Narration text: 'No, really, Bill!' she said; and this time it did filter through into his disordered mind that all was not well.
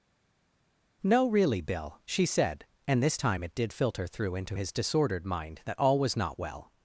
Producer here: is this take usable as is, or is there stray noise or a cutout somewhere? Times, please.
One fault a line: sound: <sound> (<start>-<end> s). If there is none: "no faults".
no faults